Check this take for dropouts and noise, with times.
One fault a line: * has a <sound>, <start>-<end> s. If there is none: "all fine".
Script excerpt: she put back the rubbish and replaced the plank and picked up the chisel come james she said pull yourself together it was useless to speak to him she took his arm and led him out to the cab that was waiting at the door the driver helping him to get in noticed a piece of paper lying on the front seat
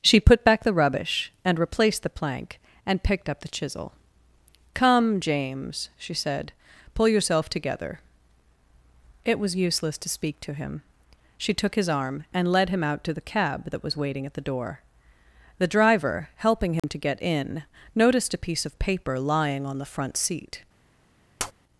* has a dropout, 16.8-16.8 s
* has a tap, 21.4-21.5 s